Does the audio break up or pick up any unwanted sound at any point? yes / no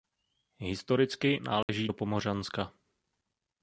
yes